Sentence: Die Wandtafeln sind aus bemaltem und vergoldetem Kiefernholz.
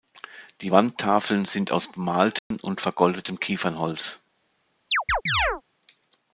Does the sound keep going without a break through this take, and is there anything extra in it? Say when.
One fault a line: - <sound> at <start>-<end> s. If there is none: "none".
- dropout at 2.4-2.5 s
- chirp at 4.9-5.6 s